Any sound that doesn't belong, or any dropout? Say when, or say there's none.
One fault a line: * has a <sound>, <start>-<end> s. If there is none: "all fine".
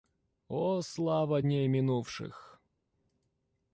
all fine